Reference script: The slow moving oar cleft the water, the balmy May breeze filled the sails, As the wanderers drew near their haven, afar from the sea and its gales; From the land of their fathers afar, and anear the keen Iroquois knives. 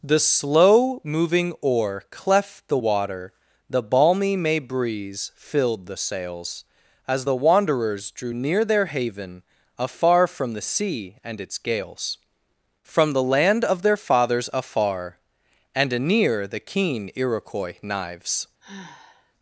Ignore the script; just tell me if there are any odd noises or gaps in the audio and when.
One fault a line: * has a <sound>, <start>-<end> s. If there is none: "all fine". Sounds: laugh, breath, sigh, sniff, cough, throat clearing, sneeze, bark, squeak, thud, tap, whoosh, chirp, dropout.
* has a sigh, 18.6-19.3 s